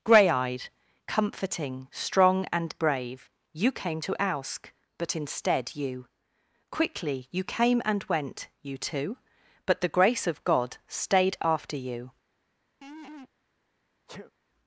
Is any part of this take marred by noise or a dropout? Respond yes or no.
yes